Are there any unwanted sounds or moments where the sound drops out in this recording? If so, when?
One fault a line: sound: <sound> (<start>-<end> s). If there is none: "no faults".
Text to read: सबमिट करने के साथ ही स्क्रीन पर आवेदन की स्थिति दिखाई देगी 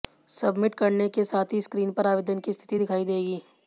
no faults